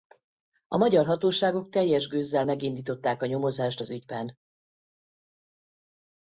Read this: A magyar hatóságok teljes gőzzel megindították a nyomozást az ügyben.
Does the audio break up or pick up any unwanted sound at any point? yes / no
no